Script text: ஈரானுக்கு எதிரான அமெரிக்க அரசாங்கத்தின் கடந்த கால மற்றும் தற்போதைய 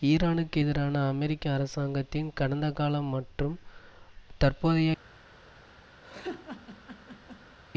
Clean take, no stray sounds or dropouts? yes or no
no